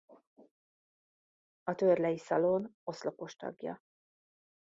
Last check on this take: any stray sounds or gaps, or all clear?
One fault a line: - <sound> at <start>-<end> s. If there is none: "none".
none